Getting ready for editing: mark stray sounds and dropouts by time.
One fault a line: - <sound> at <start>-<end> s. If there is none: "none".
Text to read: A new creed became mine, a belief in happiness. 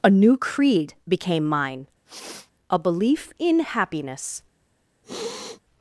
- sniff at 2.1-2.5 s
- sniff at 5.0-5.6 s